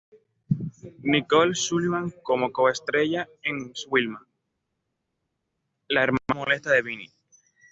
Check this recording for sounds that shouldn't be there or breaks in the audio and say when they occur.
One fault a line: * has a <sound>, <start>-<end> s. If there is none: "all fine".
all fine